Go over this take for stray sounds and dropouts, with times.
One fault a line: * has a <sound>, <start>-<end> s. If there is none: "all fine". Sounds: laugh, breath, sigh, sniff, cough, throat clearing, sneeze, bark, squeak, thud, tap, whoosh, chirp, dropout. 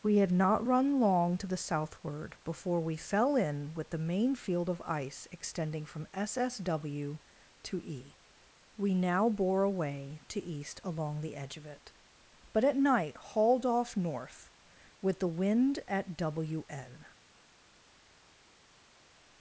all fine